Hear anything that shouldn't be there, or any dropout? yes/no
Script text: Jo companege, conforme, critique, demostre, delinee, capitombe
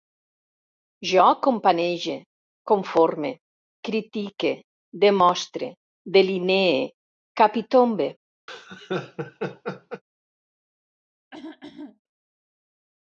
yes